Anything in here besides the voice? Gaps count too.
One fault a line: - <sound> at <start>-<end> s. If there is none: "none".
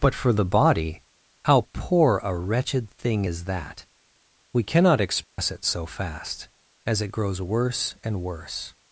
- dropout at 5.2-5.4 s